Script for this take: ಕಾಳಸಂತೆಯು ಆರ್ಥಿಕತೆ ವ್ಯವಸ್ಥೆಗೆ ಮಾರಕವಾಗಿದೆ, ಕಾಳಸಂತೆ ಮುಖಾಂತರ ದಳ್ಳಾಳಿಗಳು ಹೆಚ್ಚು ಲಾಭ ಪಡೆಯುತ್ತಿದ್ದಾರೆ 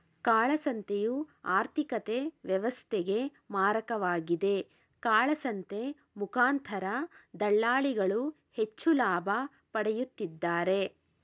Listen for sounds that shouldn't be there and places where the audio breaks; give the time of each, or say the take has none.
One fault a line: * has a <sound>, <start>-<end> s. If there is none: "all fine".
all fine